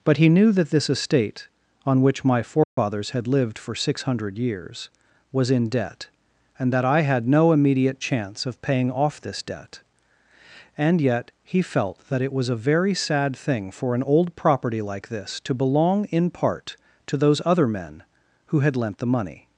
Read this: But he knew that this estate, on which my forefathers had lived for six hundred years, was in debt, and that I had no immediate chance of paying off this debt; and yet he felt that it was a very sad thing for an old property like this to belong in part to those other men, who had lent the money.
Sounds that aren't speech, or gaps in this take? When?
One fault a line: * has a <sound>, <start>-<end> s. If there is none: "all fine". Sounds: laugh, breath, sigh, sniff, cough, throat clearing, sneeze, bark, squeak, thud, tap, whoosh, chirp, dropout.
* has a dropout, 2.6-2.8 s